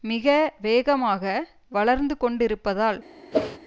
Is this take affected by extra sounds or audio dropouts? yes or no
yes